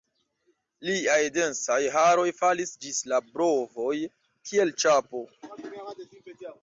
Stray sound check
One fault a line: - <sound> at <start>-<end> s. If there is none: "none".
none